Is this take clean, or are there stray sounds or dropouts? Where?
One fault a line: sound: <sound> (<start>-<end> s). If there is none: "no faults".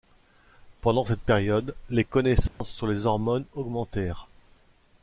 sound: dropout (2.5-2.6 s)